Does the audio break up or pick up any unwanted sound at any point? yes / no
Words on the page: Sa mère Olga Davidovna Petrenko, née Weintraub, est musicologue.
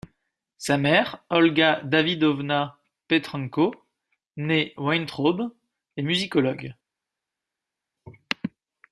no